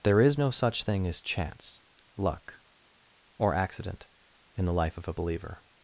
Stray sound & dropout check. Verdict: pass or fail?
pass